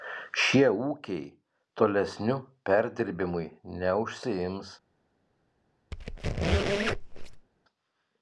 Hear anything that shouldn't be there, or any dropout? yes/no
yes